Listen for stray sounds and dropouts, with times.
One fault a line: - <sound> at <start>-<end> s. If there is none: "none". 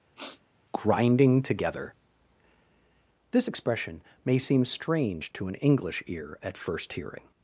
- sniff at 0.1-0.4 s